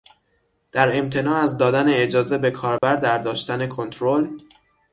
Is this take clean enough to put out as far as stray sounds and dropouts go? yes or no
no